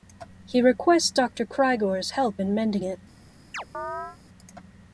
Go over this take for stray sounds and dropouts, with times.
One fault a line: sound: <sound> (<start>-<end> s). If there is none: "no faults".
sound: chirp (3.5-4.2 s)